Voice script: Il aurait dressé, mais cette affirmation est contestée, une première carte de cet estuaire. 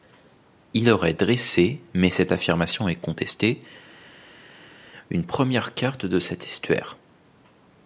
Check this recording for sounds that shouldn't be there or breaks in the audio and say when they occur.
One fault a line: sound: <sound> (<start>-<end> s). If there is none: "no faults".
no faults